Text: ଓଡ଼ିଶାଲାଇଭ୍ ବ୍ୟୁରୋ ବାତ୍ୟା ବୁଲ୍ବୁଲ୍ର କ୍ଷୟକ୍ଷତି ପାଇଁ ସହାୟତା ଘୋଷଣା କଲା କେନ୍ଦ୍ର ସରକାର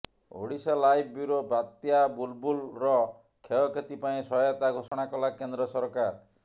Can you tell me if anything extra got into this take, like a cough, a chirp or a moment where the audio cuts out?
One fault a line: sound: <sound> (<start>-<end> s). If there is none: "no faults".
sound: dropout (4.9-4.9 s)